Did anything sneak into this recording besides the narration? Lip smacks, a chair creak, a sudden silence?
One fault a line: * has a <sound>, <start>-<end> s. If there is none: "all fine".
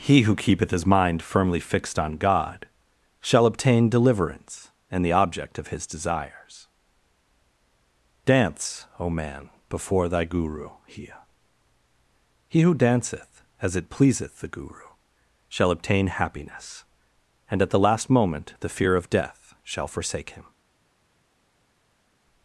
all fine